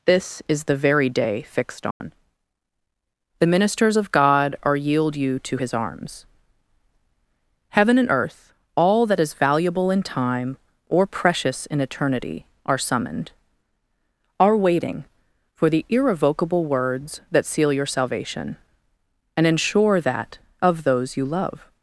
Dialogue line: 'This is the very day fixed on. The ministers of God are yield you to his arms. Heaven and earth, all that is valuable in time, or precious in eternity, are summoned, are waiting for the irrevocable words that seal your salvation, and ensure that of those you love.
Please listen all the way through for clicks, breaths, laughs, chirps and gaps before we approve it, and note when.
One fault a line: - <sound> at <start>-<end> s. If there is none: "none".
- dropout at 1.9-2.0 s